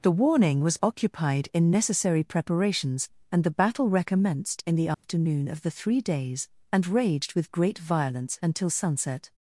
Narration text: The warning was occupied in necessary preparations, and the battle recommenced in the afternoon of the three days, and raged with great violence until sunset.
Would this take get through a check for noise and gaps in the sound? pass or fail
fail